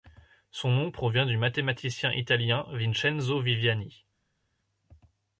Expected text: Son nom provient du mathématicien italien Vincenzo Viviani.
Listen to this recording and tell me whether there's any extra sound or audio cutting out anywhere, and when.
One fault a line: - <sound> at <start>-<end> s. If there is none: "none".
none